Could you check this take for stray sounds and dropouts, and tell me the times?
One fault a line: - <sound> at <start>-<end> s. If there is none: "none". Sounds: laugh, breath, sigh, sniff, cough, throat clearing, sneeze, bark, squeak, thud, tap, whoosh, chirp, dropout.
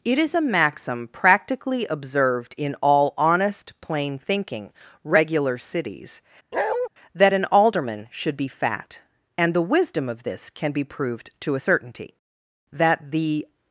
- bark at 6.5-6.9 s